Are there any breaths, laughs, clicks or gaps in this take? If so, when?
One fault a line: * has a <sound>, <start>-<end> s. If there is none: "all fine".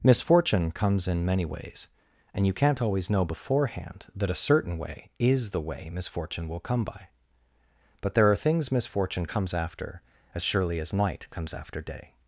all fine